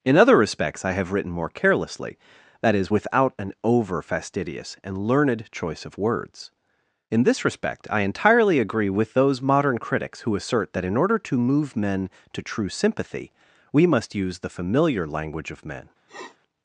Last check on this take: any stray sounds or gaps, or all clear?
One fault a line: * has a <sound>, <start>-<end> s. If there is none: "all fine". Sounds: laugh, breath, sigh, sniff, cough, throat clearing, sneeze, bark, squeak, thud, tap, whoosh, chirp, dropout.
* has a sniff, 16.1-16.4 s